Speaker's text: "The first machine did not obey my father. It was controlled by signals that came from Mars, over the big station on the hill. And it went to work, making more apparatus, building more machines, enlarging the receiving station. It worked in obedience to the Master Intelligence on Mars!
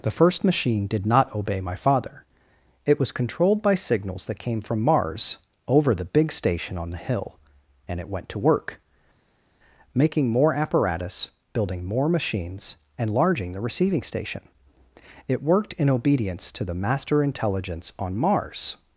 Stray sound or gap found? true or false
false